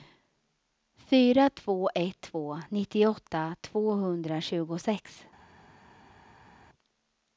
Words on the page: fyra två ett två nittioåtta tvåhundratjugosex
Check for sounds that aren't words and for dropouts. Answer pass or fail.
pass